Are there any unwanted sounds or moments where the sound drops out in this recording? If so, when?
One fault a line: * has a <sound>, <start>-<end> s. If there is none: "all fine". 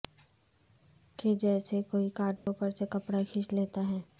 * has a dropout, 2.4-2.5 s